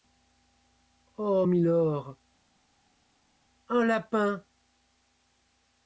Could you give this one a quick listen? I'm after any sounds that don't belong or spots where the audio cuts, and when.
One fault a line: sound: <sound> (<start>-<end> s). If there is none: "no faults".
no faults